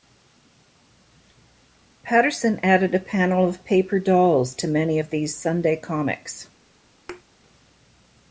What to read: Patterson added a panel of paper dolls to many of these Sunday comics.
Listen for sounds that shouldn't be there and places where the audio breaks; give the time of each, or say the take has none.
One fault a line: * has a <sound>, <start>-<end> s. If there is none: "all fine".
* has a thud, 7.1-7.2 s